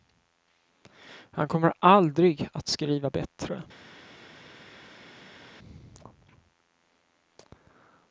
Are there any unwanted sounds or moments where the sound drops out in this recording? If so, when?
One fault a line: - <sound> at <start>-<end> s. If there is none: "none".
none